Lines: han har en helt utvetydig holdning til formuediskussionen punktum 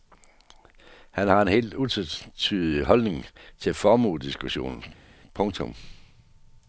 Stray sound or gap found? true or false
false